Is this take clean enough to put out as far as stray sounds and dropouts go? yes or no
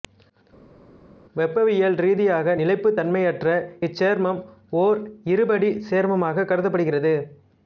yes